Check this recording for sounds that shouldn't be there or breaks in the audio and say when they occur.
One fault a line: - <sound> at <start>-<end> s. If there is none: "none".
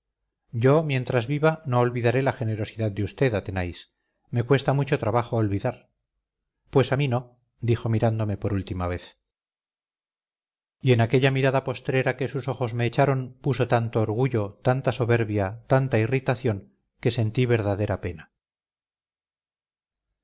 none